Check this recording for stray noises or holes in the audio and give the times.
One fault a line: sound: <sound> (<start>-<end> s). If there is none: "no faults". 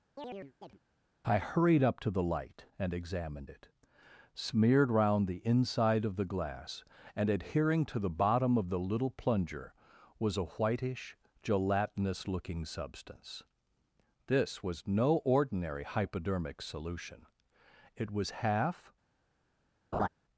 sound: chirp (0.2-0.8 s)
sound: laugh (19.9-20.1 s)